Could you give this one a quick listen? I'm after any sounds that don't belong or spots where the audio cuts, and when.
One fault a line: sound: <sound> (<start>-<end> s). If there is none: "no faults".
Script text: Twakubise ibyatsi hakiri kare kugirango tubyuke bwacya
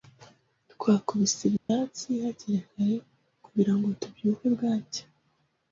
sound: dropout (1.6-1.7 s)